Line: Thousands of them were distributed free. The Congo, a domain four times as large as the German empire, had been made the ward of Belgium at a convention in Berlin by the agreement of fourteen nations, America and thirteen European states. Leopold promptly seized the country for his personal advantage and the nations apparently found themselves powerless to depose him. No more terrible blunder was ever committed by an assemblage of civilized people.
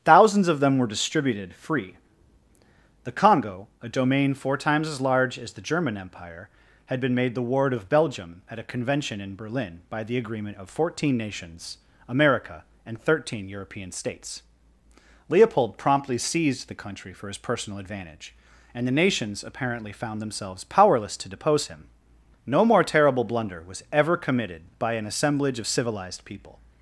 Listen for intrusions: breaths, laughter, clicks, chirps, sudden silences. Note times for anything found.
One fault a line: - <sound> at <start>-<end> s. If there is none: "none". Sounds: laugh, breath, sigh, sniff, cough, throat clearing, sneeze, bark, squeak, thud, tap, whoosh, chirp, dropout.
none